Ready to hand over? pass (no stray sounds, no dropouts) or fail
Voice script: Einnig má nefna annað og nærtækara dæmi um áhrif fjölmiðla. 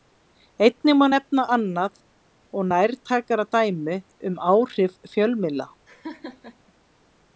fail